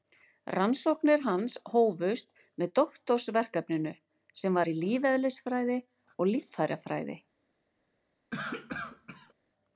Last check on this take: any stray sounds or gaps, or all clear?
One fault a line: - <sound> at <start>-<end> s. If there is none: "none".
- cough at 8.3-9.3 s